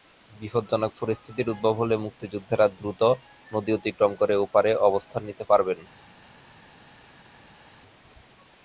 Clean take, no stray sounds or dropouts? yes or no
yes